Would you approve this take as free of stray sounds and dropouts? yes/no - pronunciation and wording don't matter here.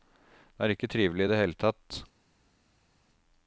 yes